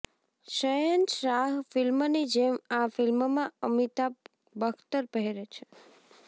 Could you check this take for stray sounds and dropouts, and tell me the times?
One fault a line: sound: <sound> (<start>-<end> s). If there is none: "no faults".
no faults